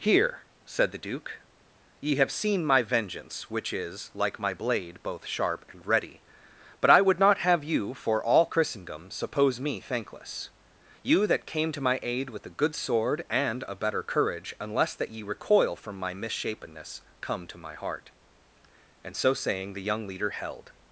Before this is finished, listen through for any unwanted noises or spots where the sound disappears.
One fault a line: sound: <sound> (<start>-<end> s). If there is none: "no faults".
no faults